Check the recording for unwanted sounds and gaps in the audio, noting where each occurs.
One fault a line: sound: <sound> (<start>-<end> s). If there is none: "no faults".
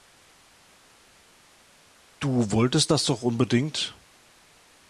no faults